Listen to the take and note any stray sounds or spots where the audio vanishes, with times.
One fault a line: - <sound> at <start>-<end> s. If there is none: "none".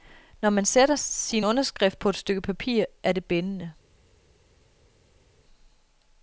none